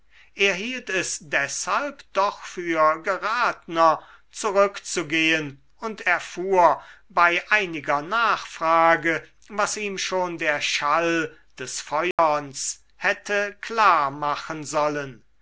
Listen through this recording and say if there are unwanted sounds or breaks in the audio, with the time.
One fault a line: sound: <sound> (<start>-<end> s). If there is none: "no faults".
sound: dropout (12.1-12.2 s)